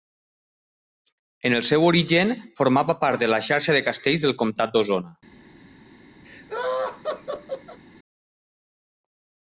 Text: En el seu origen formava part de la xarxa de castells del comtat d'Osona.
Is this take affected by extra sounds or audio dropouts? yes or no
yes